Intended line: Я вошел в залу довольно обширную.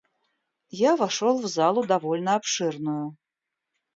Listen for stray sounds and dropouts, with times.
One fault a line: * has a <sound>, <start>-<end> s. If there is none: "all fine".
all fine